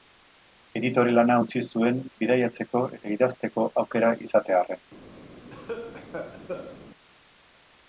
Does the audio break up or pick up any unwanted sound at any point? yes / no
yes